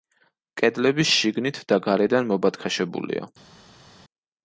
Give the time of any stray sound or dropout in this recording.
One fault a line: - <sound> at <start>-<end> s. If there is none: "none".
none